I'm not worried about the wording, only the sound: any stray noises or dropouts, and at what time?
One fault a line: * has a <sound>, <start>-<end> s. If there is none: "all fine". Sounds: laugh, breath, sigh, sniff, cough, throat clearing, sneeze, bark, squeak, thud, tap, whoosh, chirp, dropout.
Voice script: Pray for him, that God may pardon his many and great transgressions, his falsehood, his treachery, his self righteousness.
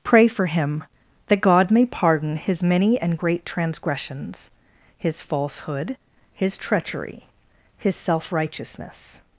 all fine